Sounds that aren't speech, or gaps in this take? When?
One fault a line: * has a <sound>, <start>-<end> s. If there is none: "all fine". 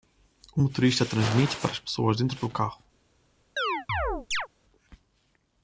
* has a chirp, 3.6-4.5 s